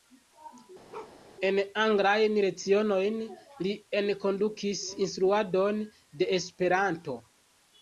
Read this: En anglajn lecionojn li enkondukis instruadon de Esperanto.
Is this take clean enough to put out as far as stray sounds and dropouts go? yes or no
no